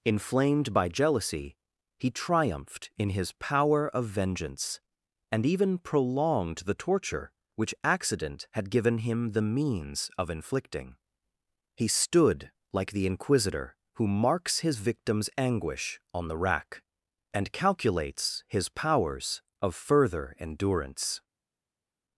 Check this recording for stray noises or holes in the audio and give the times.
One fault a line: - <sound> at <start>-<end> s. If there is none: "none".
none